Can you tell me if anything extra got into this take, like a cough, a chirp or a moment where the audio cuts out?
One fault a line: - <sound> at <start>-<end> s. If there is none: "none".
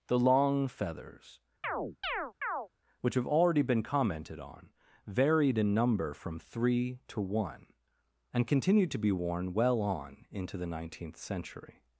- chirp at 1.6-2.7 s